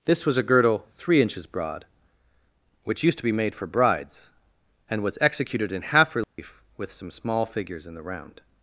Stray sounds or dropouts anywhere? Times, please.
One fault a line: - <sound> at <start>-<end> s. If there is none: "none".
- dropout at 6.2-6.4 s